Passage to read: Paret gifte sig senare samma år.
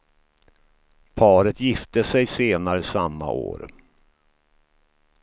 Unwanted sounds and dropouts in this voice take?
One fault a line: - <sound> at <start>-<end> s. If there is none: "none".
none